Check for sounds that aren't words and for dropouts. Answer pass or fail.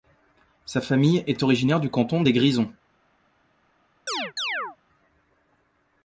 fail